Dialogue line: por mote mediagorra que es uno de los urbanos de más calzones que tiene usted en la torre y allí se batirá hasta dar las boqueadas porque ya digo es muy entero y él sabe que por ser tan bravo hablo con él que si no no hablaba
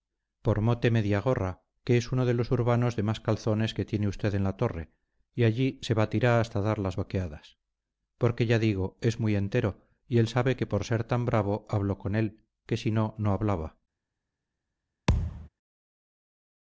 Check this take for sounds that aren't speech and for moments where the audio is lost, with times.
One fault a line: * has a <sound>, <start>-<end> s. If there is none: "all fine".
* has a thud, 15.1-15.5 s